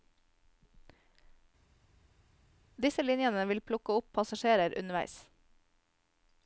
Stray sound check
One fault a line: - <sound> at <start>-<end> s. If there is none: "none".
none